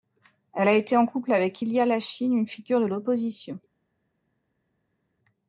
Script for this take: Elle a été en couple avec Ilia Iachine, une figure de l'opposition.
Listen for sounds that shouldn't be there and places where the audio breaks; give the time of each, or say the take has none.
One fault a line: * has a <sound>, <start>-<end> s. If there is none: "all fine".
all fine